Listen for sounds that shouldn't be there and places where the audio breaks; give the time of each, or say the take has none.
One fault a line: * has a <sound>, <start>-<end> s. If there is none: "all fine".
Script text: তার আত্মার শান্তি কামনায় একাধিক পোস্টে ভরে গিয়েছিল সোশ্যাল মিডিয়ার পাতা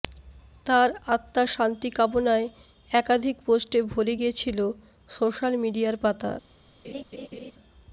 * has a laugh, 6.8-7.5 s